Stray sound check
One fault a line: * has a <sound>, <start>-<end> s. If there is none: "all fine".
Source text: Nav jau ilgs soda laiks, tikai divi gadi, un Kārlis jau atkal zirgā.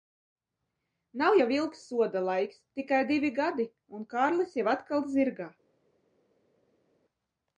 all fine